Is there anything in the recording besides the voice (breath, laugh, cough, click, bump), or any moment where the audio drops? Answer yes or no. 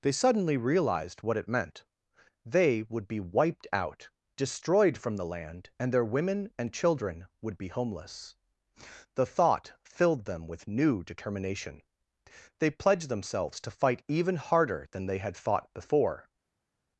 no